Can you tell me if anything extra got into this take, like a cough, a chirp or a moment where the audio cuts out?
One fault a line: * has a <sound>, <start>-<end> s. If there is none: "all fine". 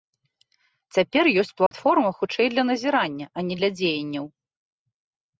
* has a dropout, 1.7-1.7 s